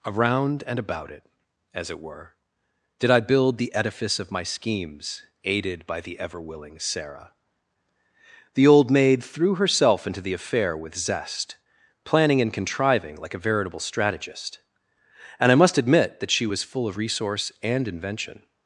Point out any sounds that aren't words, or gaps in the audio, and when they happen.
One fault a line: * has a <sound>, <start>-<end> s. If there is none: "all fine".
all fine